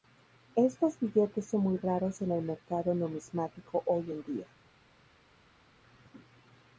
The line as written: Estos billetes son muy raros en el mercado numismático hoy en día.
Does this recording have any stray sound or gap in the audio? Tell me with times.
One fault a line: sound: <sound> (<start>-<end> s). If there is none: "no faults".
no faults